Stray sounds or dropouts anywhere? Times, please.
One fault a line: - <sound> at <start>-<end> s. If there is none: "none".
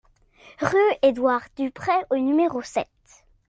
none